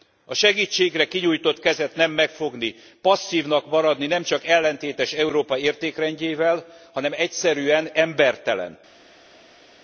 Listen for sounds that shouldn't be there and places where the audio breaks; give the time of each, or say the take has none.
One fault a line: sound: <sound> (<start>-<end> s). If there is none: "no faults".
no faults